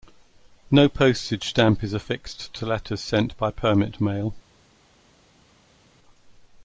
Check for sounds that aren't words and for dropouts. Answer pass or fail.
pass